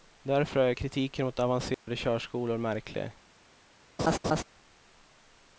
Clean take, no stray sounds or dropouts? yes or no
no